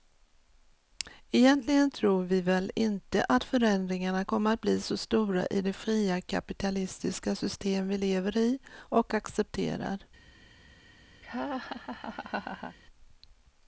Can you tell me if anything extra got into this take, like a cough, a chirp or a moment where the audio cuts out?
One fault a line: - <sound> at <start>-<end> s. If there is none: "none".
- laugh at 11.2-12.8 s